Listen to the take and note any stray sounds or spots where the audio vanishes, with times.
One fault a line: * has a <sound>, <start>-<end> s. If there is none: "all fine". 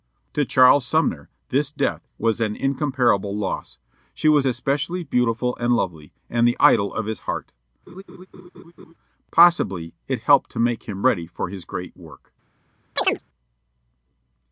* has a laugh, 7.9-8.9 s
* has a chirp, 13.0-13.2 s